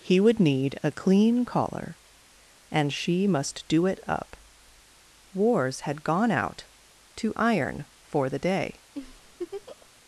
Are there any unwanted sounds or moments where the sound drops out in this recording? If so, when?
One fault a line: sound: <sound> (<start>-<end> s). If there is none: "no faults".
sound: laugh (8.9-9.9 s)